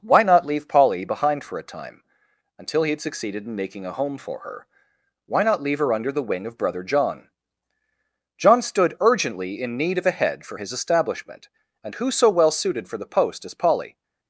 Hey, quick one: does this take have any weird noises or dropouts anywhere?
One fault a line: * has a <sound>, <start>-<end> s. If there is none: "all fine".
all fine